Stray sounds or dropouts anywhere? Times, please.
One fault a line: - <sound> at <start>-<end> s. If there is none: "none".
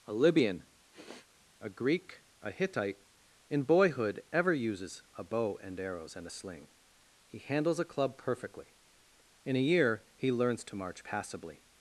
- sniff at 0.9-1.3 s